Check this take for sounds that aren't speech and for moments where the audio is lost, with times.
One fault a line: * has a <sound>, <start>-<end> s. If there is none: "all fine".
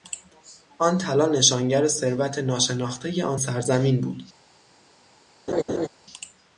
* has a laugh, 5.5-5.9 s